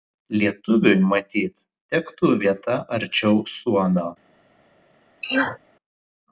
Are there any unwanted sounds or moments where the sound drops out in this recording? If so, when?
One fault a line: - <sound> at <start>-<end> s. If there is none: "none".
- sneeze at 5.2-5.6 s